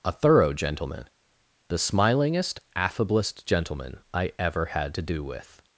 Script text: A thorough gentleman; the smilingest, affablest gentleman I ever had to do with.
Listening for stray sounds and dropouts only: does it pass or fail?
pass